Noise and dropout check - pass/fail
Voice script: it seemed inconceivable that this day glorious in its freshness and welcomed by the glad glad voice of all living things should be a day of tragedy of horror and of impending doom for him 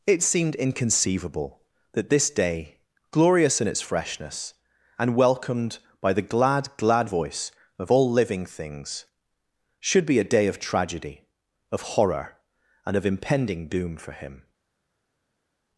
pass